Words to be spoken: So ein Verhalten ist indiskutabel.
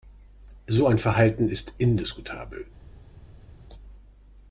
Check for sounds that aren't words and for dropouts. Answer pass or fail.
pass